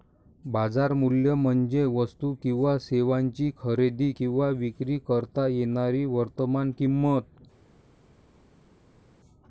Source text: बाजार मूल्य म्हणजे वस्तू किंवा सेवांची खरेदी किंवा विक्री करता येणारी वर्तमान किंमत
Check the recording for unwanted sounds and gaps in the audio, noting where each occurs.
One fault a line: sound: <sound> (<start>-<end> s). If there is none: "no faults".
no faults